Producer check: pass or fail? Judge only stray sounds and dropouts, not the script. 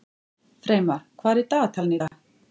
fail